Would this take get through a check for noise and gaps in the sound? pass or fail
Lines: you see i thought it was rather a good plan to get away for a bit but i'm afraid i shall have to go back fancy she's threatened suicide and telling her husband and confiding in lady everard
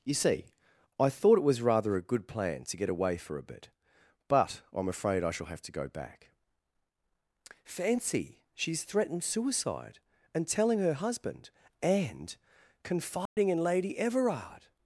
fail